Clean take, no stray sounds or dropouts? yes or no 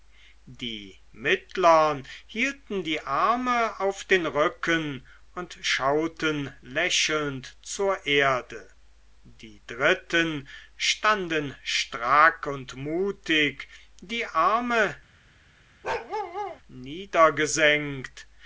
no